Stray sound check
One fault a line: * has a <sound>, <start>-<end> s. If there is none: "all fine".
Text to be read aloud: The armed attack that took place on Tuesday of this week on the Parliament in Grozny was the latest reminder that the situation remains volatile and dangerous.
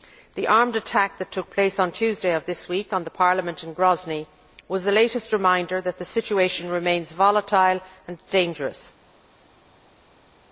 all fine